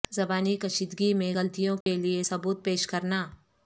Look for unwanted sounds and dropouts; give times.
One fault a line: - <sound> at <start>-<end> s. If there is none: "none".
- dropout at 1.8-1.9 s